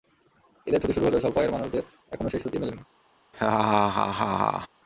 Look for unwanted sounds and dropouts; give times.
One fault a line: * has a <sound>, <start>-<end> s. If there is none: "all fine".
* has a laugh, 3.3-4.7 s